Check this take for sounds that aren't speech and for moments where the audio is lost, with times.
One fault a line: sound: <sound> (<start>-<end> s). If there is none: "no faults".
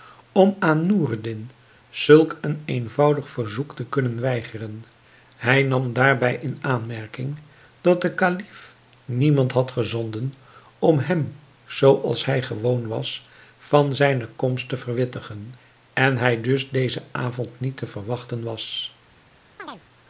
sound: chirp (19.6-19.8 s)